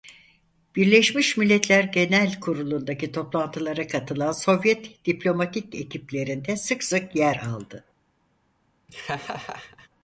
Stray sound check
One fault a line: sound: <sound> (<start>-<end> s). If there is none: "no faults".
sound: laugh (8.9-9.9 s)